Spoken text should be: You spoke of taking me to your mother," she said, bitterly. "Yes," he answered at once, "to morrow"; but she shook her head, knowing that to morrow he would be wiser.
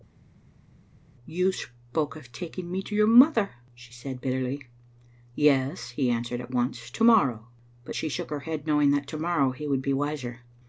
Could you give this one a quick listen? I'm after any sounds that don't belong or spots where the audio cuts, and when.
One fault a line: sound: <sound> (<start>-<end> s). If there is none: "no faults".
no faults